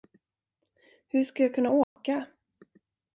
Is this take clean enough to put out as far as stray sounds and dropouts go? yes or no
no